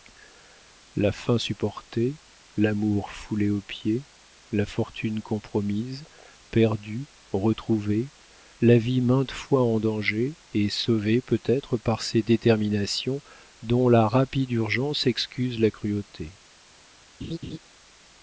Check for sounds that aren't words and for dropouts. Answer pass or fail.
fail